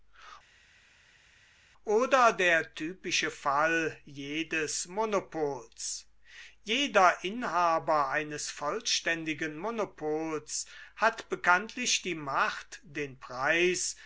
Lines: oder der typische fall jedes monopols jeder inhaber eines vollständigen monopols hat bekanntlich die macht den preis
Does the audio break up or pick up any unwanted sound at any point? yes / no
no